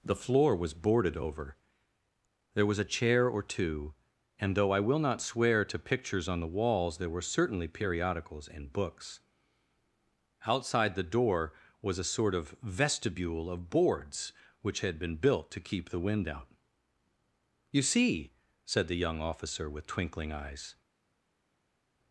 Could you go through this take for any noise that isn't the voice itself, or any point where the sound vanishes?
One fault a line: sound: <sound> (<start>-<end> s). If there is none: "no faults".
no faults